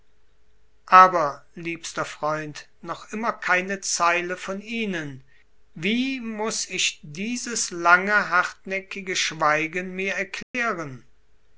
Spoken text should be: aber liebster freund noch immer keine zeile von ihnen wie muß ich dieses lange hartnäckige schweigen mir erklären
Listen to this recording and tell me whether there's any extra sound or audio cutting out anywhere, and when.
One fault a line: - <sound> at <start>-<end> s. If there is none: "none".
- dropout at 10.4-10.5 s